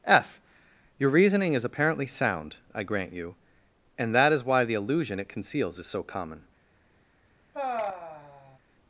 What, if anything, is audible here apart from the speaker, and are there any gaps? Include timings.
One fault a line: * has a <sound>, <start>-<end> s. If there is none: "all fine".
* has a sigh, 7.5-8.6 s